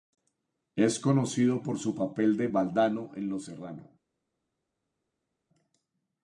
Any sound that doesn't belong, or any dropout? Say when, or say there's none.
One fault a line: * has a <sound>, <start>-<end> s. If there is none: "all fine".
all fine